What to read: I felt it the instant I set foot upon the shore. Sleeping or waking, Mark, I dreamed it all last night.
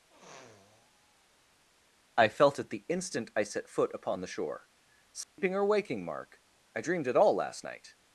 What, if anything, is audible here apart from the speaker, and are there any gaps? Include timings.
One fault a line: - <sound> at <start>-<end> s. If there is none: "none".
- sniff at 0.1-1.6 s
- dropout at 5.2-5.4 s